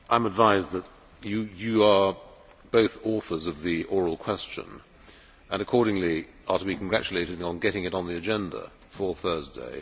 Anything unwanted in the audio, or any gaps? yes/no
no